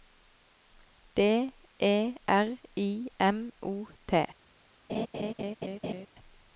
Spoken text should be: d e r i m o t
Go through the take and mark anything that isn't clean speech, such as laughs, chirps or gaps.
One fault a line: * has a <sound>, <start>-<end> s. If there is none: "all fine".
* has a laugh, 4.9-6.1 s